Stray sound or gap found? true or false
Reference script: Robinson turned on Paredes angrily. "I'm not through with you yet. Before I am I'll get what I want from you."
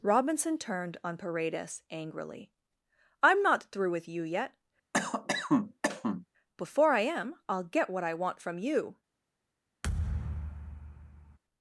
true